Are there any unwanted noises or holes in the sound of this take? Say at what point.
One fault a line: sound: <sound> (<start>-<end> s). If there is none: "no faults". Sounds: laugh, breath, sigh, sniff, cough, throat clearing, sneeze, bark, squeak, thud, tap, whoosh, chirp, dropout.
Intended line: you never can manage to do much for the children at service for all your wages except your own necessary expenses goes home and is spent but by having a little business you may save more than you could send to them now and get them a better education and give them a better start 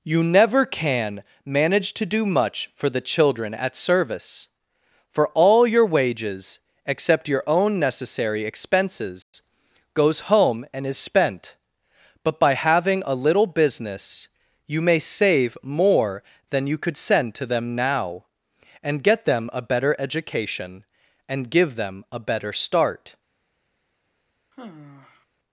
sound: dropout (9.2-9.3 s)
sound: sigh (24.5-25.3 s)